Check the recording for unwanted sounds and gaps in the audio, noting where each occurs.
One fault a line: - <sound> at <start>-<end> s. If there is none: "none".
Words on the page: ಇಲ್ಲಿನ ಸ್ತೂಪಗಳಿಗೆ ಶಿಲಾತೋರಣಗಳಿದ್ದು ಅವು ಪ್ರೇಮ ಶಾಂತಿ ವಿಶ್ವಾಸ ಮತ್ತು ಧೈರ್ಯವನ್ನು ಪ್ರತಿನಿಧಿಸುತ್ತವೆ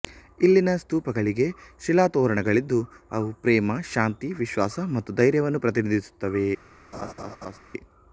- laugh at 6.9-7.6 s